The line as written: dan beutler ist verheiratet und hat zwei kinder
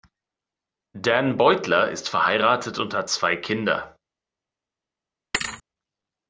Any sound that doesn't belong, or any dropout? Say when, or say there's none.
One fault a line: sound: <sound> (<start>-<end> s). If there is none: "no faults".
sound: thud (5.3-5.6 s)